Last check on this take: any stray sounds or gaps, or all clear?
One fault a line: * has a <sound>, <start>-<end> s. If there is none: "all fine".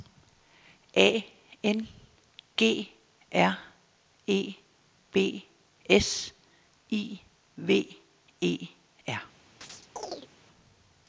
* has a chirp, 9.6-10.3 s